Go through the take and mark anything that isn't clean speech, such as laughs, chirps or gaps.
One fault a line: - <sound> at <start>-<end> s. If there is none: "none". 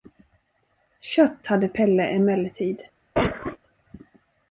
- cough at 3.1-3.6 s